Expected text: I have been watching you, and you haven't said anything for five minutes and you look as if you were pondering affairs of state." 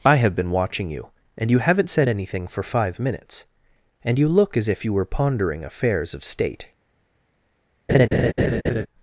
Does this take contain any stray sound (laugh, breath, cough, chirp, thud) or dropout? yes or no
yes